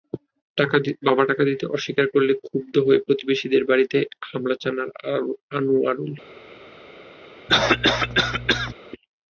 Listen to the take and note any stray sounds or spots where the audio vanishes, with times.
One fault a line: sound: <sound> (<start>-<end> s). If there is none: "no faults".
sound: cough (7.5-8.7 s)